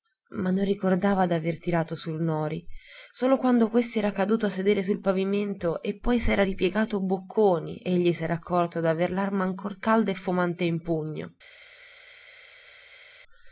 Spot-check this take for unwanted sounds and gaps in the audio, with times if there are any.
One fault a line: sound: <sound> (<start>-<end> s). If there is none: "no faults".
no faults